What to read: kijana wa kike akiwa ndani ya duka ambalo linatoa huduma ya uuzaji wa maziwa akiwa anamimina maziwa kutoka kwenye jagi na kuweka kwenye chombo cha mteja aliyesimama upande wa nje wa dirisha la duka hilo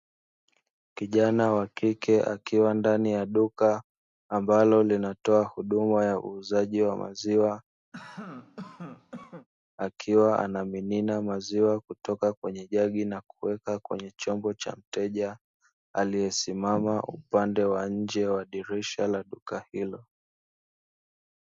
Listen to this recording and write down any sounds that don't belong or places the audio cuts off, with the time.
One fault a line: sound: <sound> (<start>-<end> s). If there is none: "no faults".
sound: cough (7.9-9.5 s)